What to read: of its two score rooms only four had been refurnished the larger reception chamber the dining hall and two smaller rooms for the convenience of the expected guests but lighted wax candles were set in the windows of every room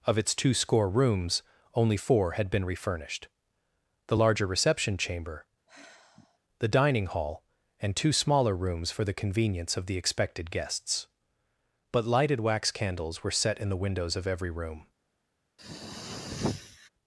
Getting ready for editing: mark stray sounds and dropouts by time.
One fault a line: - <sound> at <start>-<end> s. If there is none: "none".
- sigh at 5.7-6.4 s
- throat clearing at 15.6-16.9 s